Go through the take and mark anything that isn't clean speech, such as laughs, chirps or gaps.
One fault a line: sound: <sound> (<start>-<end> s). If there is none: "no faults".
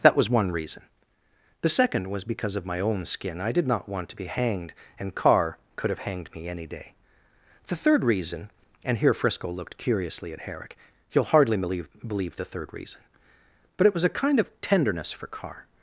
no faults